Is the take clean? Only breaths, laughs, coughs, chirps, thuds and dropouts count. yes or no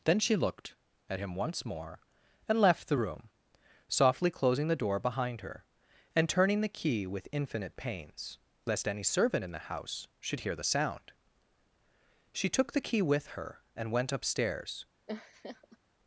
no